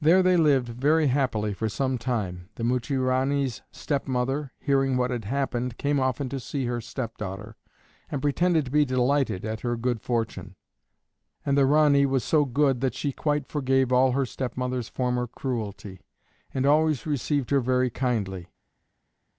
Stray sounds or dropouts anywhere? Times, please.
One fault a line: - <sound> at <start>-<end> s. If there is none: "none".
none